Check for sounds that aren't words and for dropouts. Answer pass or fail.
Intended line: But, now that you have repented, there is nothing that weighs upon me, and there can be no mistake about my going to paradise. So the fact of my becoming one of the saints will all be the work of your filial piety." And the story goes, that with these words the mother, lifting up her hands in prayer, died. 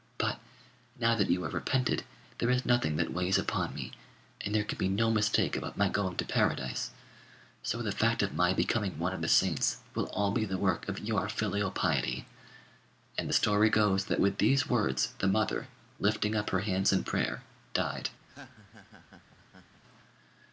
fail